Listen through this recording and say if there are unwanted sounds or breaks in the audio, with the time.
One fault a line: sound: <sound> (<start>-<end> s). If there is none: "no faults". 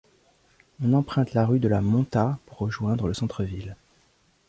no faults